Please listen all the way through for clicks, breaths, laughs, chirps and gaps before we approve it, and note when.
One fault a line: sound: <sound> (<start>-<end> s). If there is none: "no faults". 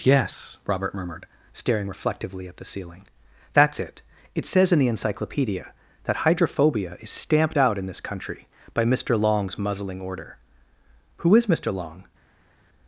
no faults